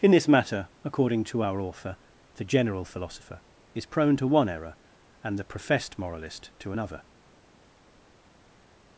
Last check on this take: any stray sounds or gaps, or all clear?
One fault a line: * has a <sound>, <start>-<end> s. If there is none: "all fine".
all fine